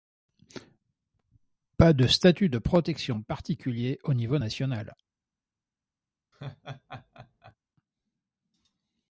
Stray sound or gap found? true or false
true